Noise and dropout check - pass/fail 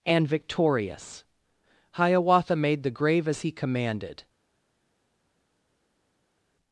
pass